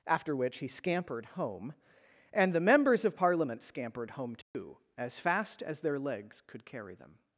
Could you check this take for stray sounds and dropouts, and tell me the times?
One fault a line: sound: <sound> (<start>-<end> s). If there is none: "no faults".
sound: dropout (4.4-4.5 s)